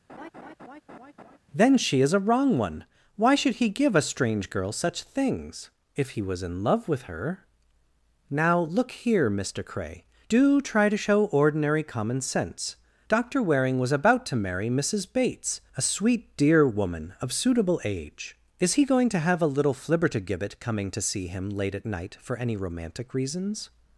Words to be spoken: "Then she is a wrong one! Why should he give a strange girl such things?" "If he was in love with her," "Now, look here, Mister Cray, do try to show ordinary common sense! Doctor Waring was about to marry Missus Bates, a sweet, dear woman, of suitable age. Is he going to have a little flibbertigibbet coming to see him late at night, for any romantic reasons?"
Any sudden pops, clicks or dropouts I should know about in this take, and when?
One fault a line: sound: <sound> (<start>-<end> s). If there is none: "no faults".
sound: laugh (0.1-1.4 s)